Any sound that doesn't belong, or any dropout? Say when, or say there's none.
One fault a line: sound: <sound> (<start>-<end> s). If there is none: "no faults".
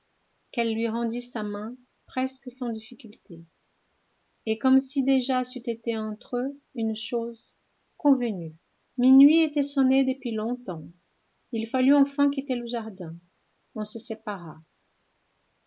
no faults